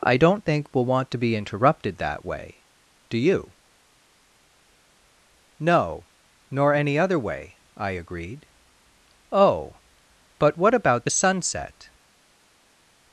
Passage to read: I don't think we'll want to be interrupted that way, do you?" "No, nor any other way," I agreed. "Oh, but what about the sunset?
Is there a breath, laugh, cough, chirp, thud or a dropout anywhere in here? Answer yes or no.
no